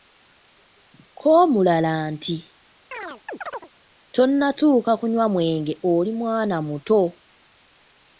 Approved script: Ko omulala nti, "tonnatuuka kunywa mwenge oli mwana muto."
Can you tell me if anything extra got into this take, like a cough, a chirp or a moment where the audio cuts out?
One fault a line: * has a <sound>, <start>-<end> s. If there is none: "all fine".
* has a chirp, 2.9-3.7 s